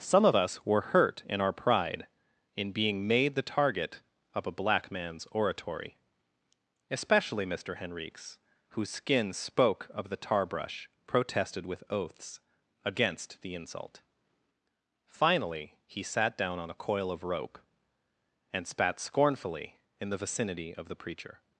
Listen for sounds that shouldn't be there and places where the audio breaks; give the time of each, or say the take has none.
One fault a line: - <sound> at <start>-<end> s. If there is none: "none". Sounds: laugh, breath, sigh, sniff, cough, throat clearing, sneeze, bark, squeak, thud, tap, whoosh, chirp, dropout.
none